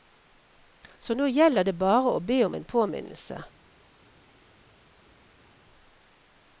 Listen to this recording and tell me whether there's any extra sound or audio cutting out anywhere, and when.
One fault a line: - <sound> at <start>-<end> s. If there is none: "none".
none